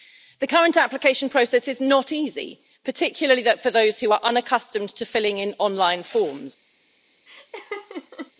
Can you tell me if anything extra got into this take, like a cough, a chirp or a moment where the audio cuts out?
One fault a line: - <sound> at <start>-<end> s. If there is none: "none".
- laugh at 7.3-8.3 s